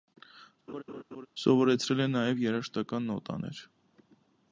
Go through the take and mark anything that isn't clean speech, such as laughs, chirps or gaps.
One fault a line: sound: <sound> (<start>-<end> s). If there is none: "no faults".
sound: laugh (0.7-1.3 s)